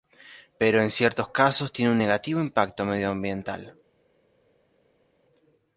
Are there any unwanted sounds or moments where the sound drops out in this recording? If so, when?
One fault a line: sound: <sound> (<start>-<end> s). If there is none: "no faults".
no faults